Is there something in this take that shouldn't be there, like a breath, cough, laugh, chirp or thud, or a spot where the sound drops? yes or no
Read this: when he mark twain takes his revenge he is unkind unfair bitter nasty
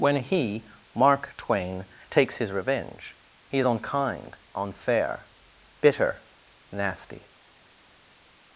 no